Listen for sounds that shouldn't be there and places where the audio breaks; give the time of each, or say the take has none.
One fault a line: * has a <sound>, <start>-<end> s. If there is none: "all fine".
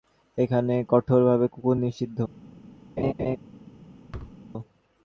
* has a laugh, 3.0-3.4 s
* has a thud, 4.1-4.4 s